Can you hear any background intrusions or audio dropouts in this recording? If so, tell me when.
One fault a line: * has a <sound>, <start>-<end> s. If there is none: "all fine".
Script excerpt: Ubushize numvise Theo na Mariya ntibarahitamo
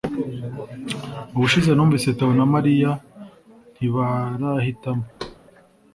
* has a thud, 5.2-5.4 s